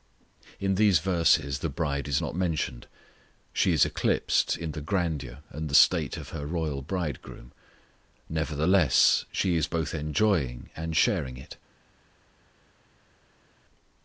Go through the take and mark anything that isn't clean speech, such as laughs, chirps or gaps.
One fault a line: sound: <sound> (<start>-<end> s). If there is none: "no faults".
no faults